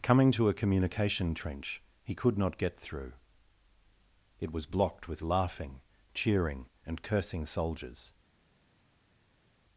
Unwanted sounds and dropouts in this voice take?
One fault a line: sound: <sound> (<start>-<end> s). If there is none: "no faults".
no faults